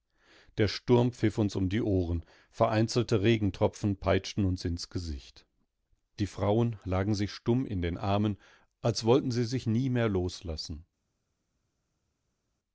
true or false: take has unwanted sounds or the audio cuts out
false